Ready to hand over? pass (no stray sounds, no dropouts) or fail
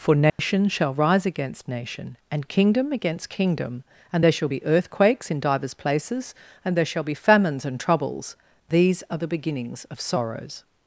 fail